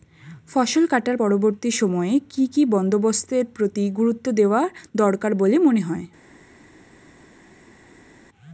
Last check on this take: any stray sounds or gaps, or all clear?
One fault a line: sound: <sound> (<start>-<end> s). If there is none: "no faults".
no faults